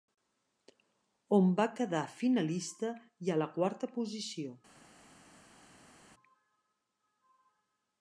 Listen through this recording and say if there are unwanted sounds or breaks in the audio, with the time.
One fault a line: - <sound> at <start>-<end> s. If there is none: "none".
none